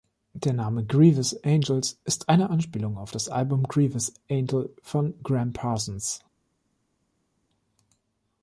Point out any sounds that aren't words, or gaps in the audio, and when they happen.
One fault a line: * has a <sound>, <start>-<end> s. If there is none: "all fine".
all fine